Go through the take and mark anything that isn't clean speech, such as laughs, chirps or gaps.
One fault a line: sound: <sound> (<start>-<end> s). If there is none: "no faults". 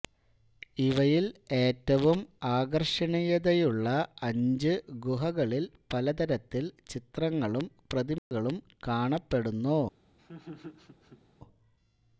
sound: dropout (8.2-8.3 s)
sound: laugh (10.2-11.2 s)